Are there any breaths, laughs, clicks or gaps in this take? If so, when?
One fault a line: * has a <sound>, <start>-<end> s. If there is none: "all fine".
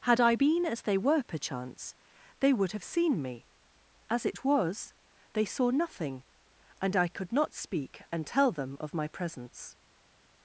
all fine